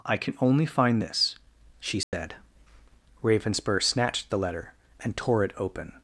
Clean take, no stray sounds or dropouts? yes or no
no